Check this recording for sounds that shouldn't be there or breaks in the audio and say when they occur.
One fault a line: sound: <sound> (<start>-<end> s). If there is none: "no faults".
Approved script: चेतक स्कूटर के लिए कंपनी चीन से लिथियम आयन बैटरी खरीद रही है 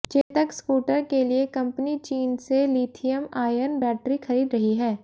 sound: dropout (0.2-0.3 s)